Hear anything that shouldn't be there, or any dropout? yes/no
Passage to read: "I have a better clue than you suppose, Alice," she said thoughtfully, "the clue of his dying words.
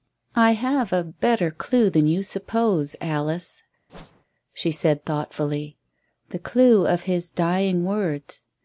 yes